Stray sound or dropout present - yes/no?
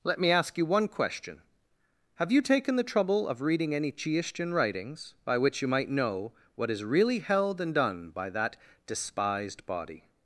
no